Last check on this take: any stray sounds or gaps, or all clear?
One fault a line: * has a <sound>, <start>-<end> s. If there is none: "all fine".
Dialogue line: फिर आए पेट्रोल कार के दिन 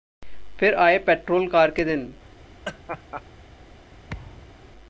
* has a laugh, 2.6-3.2 s
* has a thud, 4.1-4.7 s